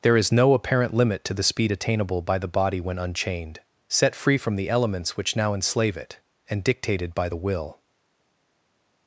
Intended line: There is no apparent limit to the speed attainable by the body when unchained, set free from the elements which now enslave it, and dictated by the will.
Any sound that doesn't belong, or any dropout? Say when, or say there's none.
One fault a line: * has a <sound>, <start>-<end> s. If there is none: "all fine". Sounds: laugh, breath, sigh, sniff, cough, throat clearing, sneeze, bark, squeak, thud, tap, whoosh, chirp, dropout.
all fine